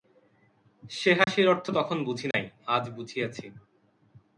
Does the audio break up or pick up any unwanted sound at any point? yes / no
yes